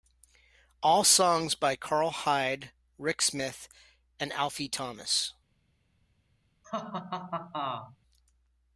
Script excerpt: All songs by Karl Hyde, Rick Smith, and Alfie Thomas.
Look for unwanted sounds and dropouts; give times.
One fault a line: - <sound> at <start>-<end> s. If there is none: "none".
- laugh at 6.6-8.0 s